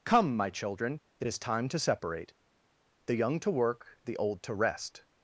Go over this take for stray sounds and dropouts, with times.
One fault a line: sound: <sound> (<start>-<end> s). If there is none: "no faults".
no faults